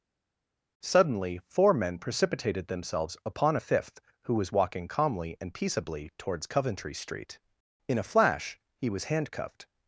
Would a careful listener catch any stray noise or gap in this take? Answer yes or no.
no